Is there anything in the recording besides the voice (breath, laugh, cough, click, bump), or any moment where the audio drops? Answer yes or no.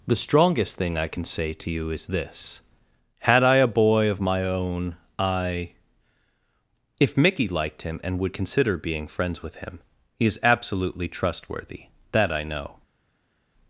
no